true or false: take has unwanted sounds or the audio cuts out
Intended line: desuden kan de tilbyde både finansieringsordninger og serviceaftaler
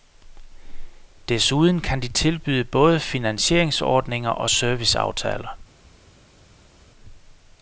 false